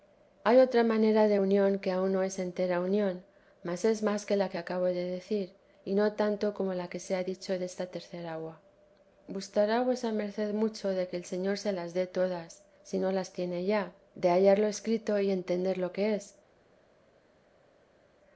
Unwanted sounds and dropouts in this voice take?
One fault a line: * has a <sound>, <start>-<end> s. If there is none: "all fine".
all fine